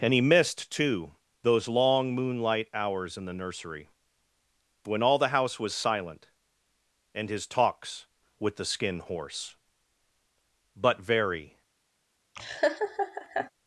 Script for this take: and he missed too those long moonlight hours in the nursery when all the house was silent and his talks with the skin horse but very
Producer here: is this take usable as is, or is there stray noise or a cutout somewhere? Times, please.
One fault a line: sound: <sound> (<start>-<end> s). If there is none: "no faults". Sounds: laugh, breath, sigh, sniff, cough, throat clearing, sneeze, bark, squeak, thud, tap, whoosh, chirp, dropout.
sound: laugh (12.4-13.5 s)